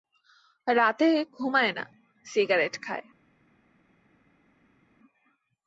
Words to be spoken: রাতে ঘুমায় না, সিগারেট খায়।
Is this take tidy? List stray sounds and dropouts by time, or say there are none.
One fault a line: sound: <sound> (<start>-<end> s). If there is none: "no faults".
no faults